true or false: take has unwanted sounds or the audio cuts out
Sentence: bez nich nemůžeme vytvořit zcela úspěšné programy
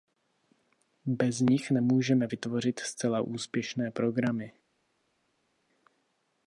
false